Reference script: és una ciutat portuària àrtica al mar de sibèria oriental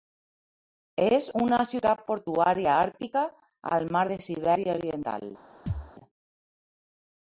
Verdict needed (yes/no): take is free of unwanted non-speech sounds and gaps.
no